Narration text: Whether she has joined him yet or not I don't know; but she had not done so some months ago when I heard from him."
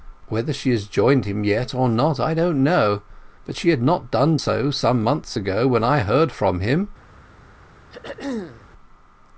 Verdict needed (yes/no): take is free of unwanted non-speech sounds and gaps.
no